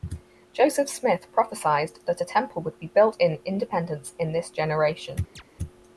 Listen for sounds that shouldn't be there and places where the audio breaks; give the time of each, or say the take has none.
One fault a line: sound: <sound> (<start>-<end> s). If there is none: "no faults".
sound: chirp (5.4-5.4 s)